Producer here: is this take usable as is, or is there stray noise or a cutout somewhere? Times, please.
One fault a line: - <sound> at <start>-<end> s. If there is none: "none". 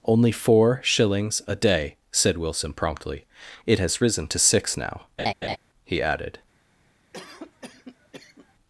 - laugh at 5.2-5.6 s
- cough at 7.1-8.5 s